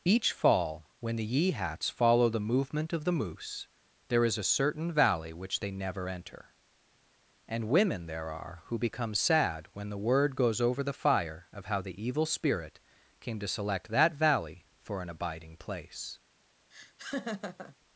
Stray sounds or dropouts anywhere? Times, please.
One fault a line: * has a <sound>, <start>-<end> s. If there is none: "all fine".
* has a laugh, 16.7-17.8 s